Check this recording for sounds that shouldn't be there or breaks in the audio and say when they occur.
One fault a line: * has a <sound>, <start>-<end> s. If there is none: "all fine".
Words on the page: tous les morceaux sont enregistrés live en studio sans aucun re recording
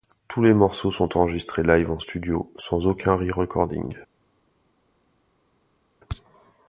all fine